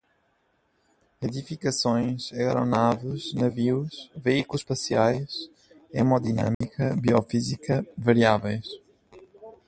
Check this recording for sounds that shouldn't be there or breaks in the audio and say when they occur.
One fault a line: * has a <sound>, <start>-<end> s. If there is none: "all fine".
* has a dropout, 6.5-6.6 s